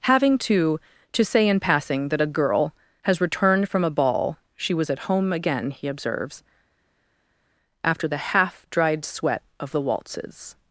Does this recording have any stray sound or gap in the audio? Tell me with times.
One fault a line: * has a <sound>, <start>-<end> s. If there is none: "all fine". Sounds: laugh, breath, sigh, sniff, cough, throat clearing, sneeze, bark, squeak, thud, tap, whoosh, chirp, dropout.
all fine